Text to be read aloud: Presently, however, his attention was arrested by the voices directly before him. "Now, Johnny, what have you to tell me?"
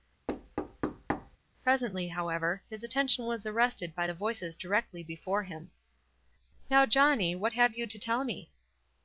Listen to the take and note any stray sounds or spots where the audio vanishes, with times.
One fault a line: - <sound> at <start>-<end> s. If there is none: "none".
- thud at 0.3-1.4 s